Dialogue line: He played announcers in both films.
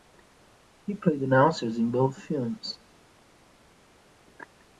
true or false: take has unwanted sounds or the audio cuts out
false